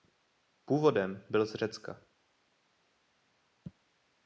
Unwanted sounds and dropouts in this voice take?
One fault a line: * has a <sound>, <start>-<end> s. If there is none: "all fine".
all fine